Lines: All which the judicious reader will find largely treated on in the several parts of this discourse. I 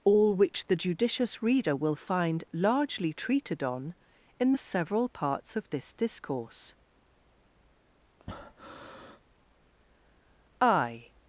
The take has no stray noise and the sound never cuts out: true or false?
false